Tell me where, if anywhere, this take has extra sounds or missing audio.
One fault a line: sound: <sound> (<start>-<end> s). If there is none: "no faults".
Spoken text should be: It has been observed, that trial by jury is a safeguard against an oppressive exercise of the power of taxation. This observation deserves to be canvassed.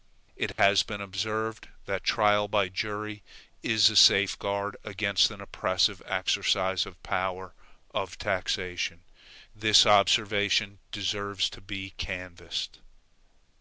sound: dropout (0.5-0.6 s)